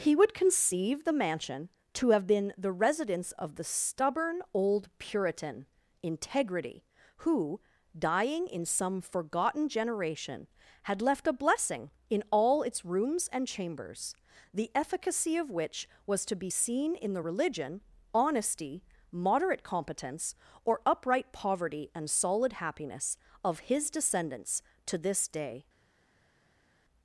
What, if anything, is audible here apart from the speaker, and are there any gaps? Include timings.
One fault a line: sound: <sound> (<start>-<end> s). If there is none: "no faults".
no faults